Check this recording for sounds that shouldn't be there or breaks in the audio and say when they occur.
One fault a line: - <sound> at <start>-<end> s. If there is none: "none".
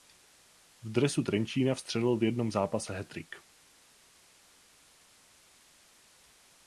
none